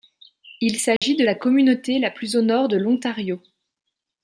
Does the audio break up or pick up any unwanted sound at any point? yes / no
yes